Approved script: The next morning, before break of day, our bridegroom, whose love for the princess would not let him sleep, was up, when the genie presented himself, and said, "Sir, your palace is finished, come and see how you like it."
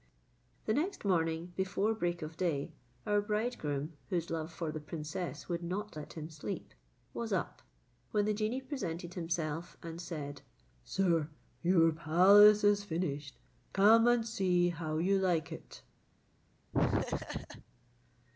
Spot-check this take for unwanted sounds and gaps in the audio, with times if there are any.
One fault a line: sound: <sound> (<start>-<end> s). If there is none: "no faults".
sound: laugh (16.7-17.6 s)